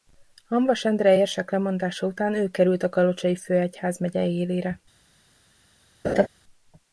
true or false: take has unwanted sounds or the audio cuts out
true